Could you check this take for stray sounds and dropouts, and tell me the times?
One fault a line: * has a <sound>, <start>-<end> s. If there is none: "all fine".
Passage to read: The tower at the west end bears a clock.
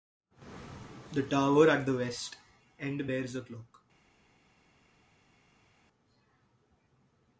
all fine